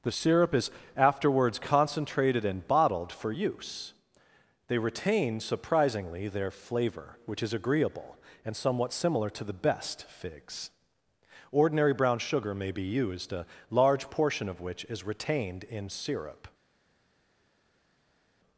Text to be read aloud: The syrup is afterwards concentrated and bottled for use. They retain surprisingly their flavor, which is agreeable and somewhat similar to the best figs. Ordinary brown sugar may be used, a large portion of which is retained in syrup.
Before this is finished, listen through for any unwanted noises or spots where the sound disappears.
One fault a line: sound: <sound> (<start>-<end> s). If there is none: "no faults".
no faults